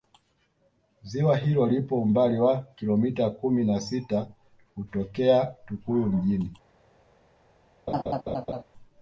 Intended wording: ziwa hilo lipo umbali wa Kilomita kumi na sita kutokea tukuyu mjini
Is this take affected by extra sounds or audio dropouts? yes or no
yes